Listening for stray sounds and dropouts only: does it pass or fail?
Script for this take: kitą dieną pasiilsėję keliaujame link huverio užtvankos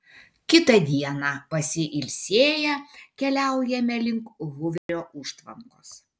fail